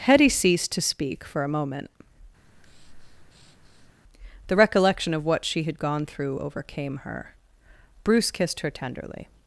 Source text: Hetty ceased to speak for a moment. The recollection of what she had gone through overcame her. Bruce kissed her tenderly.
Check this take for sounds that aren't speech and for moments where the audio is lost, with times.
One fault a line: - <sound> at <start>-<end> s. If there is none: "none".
- breath at 2.4-3.9 s